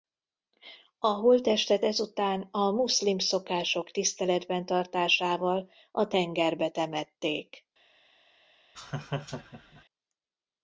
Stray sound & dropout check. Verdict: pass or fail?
fail